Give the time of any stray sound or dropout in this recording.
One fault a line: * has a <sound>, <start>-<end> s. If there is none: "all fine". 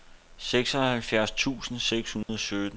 * has a dropout, 2.2-2.3 s